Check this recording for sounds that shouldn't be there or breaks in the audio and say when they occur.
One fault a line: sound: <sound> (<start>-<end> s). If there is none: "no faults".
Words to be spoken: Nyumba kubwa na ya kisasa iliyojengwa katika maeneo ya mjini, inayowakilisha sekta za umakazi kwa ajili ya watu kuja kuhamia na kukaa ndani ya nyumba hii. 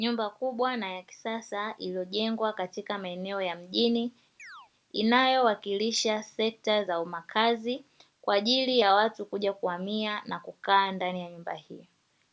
sound: chirp (4.4-4.7 s)